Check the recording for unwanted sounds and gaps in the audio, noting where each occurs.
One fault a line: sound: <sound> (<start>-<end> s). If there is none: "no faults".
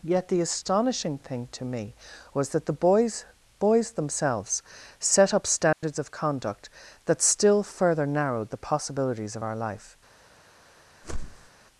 sound: dropout (5.7-5.8 s)
sound: whoosh (11.0-11.5 s)